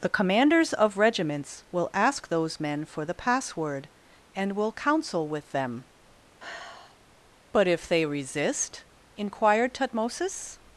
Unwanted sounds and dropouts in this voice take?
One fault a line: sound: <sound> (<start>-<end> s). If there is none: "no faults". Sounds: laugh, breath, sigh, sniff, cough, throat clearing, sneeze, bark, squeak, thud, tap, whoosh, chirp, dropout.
sound: sigh (6.4-7.0 s)